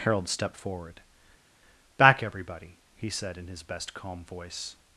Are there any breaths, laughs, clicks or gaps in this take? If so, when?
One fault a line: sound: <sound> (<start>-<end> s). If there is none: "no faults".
no faults